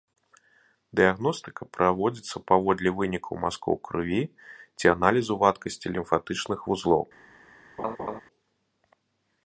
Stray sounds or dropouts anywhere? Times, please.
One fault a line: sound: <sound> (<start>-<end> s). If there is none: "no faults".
sound: laugh (7.8-8.2 s)